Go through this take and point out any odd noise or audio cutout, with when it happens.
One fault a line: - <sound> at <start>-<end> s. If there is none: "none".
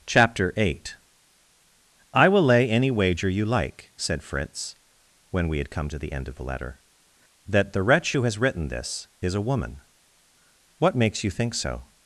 none